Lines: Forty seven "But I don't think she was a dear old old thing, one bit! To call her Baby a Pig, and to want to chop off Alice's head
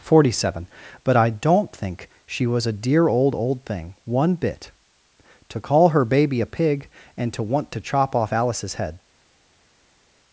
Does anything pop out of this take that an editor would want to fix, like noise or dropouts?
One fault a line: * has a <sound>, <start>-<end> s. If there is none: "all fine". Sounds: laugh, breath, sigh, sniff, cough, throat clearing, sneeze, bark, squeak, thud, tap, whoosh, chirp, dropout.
all fine